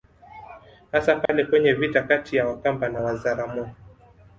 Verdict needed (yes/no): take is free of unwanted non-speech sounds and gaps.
no